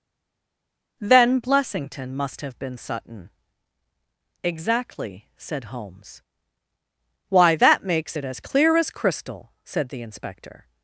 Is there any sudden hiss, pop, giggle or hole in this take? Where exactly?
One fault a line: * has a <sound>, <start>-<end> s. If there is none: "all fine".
all fine